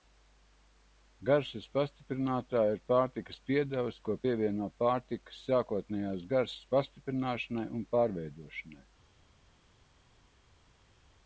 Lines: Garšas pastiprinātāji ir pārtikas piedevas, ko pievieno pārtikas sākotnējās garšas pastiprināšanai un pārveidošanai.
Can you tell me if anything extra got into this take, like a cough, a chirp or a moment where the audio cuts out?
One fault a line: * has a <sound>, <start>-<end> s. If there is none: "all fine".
all fine